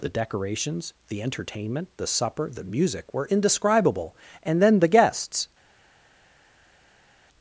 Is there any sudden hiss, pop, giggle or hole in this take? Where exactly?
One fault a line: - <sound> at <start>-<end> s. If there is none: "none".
none